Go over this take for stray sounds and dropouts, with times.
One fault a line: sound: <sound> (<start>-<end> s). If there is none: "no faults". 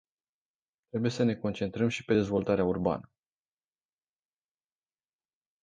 no faults